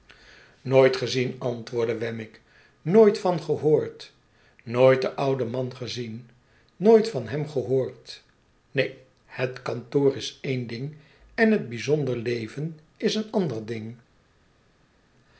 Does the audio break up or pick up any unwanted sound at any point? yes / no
no